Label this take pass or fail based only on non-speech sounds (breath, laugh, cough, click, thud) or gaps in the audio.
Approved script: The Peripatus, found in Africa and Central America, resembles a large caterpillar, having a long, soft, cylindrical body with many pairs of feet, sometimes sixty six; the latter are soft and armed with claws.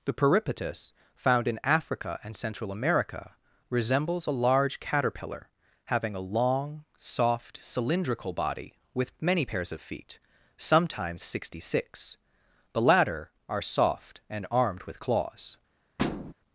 fail